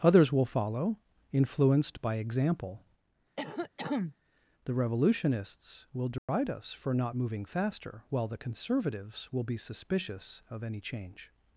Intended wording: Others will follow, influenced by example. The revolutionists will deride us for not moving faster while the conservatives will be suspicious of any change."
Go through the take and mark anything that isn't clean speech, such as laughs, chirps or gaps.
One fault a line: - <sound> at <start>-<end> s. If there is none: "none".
- cough at 3.4-4.2 s
- dropout at 6.2-6.3 s